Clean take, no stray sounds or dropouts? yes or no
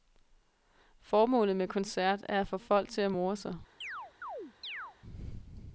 no